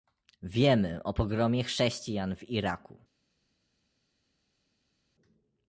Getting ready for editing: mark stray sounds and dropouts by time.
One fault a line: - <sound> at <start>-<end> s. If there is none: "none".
none